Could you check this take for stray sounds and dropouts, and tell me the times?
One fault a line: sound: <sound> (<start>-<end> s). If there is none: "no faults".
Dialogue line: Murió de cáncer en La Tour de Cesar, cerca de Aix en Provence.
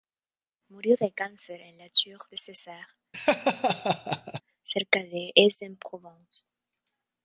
sound: laugh (3.1-4.4 s)